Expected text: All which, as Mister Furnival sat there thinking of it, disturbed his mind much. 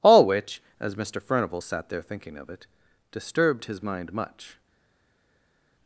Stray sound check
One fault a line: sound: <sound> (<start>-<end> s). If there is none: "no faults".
no faults